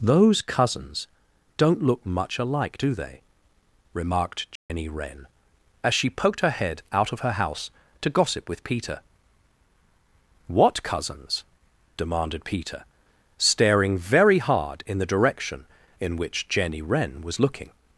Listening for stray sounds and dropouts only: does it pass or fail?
fail